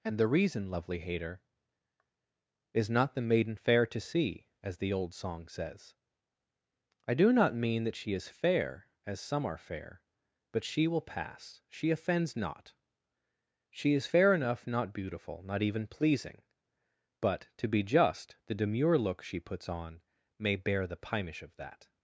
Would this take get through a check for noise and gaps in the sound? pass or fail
pass